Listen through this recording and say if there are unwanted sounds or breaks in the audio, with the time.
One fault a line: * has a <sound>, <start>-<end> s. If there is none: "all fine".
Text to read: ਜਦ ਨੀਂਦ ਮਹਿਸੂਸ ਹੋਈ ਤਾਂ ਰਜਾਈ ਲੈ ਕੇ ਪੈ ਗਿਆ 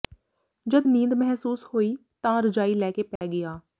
* has a dropout, 3.2-3.2 s